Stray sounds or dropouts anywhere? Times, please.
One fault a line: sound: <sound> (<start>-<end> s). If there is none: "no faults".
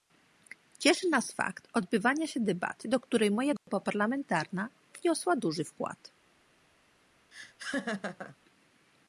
sound: dropout (3.6-3.7 s)
sound: laugh (7.3-8.4 s)